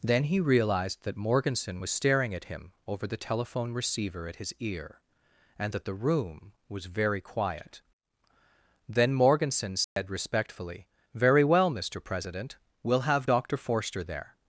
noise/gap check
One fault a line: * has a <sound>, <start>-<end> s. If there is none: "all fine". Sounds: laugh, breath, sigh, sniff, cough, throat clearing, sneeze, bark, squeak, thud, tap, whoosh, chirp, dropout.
* has a dropout, 9.8-10.0 s